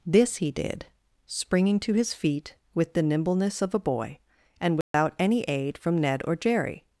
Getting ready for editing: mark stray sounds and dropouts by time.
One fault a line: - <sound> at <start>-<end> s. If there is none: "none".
- dropout at 4.8-4.9 s